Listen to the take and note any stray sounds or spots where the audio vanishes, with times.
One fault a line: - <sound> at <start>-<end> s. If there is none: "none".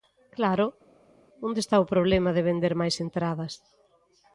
none